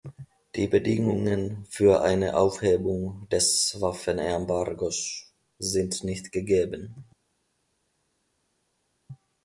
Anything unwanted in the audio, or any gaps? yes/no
no